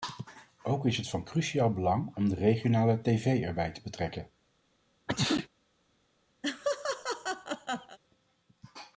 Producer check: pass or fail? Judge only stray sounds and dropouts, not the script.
fail